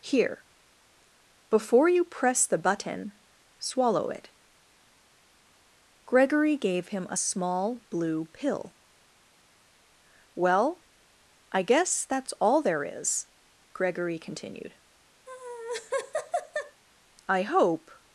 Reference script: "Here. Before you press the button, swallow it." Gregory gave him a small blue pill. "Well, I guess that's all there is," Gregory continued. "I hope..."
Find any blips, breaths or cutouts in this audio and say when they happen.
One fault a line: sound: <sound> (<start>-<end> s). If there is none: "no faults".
sound: laugh (15.3-16.8 s)